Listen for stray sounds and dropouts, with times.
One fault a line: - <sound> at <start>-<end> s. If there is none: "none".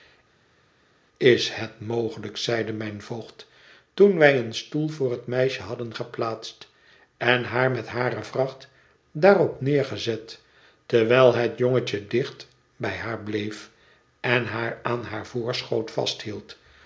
none